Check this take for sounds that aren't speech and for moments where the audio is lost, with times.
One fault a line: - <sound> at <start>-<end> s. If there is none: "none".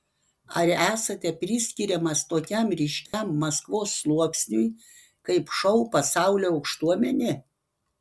- dropout at 3.1-3.1 s